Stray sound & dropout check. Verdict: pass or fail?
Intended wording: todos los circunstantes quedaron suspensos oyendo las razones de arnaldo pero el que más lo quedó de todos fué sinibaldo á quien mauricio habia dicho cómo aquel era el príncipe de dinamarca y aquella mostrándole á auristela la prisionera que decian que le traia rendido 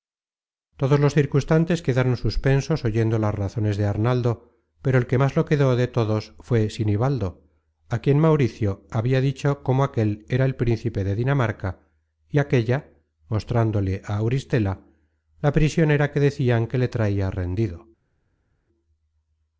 pass